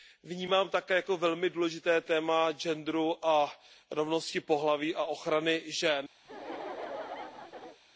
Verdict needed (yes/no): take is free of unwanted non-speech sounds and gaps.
no